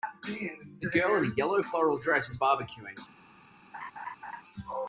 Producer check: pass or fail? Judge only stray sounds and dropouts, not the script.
fail